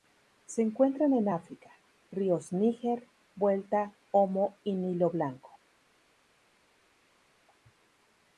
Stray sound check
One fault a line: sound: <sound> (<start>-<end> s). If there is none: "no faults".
no faults